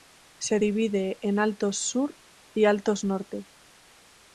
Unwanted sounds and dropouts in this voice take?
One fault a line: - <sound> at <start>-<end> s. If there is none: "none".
none